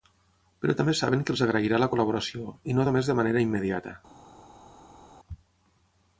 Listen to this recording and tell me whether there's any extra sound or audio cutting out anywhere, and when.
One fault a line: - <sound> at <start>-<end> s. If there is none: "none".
none